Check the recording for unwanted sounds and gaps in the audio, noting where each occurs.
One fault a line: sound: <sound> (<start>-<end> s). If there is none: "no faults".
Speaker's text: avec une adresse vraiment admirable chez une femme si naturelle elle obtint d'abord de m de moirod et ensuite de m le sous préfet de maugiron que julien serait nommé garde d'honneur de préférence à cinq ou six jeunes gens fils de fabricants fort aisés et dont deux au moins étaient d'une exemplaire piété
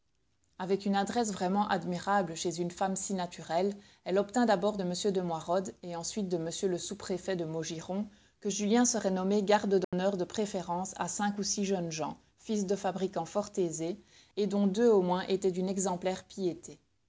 sound: dropout (9.8-9.9 s)